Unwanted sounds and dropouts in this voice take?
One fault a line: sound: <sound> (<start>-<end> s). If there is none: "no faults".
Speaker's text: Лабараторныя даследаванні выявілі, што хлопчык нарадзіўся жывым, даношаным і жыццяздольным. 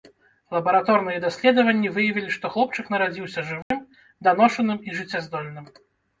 sound: dropout (3.6-3.7 s)